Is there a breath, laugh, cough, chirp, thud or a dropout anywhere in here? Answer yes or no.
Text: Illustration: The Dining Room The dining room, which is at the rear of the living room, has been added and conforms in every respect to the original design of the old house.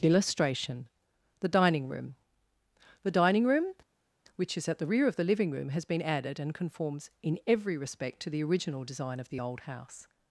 no